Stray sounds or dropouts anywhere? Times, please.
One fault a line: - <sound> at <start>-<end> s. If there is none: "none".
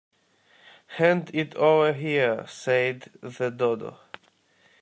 none